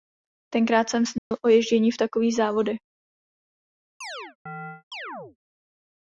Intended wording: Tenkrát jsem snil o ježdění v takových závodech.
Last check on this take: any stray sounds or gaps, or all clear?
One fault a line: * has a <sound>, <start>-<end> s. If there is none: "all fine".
* has a dropout, 1.2-1.3 s
* has a chirp, 4.0-5.4 s